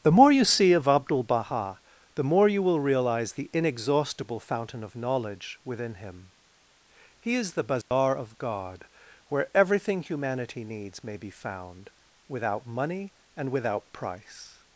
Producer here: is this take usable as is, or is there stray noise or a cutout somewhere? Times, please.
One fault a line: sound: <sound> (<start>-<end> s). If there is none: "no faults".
sound: dropout (7.8-7.9 s)